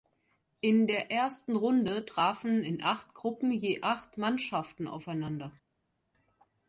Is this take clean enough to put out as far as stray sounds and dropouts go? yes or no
yes